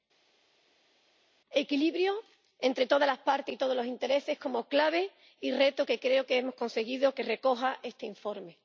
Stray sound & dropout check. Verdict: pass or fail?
pass